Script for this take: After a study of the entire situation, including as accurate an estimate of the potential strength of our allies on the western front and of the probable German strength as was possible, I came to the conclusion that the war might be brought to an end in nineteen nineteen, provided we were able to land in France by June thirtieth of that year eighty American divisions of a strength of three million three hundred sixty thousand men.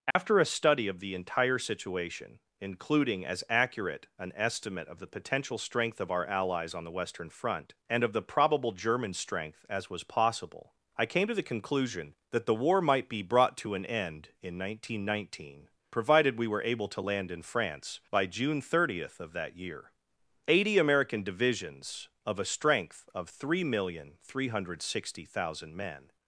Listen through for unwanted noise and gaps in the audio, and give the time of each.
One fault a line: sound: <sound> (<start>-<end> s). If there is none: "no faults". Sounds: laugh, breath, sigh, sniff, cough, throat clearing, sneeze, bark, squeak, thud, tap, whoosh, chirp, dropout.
sound: dropout (0.1-0.2 s)